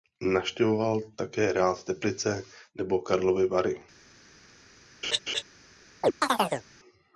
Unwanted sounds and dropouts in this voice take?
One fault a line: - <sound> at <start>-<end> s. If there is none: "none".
- laugh at 5.0-5.4 s
- chirp at 6.0-6.6 s